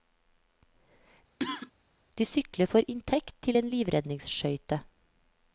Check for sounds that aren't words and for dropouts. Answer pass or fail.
fail